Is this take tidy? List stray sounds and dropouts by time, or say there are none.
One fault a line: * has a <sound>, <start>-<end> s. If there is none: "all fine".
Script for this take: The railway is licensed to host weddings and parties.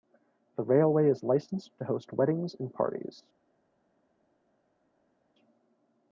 all fine